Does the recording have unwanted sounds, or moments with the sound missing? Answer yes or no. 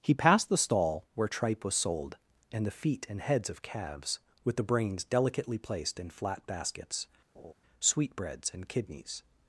yes